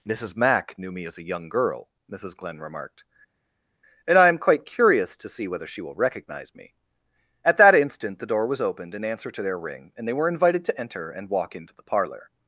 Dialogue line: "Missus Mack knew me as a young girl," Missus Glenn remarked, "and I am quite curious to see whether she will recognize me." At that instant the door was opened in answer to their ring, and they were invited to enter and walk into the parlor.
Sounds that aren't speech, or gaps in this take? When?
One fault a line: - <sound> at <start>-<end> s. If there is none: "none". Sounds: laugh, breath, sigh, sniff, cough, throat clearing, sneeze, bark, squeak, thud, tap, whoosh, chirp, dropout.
none